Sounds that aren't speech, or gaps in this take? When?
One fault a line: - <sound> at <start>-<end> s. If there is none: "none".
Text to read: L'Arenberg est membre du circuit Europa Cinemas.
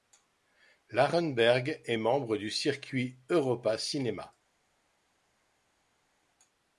none